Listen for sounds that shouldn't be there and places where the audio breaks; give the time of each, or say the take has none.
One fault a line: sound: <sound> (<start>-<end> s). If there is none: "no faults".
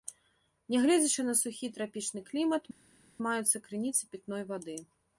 no faults